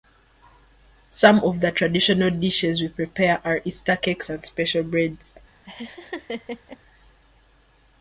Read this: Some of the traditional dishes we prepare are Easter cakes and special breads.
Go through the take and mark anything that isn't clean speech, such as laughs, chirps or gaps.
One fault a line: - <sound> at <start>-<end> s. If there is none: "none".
- laugh at 5.7-6.8 s